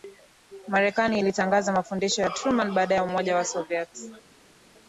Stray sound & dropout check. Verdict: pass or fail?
pass